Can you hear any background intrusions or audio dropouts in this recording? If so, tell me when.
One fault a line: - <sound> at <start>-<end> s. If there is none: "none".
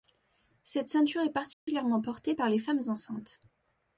- dropout at 1.5-1.7 s